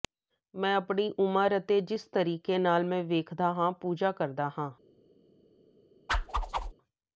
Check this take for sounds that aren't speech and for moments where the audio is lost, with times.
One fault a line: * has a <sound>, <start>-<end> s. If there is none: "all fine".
* has a whoosh, 6.1-6.7 s